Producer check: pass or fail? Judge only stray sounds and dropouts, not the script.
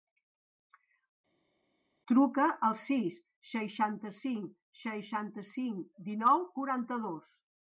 pass